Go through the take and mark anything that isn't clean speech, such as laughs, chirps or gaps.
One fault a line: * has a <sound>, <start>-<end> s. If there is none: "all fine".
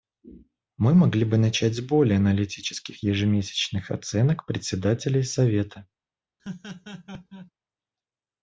* has a laugh, 6.4-7.5 s